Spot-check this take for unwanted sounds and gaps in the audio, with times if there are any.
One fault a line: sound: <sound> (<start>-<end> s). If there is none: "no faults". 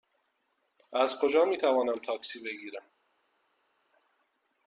no faults